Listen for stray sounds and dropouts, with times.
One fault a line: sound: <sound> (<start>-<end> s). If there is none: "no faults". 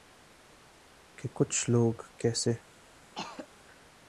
sound: throat clearing (3.1-3.5 s)